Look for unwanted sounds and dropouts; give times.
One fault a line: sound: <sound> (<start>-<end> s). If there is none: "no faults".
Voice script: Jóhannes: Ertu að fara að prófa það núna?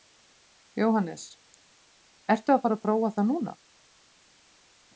no faults